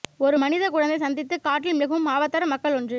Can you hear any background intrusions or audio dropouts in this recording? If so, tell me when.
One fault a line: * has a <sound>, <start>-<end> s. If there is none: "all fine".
all fine